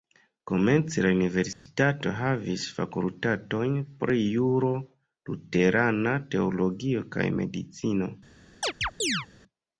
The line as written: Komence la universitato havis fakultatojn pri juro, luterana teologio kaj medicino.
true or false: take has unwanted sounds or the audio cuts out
true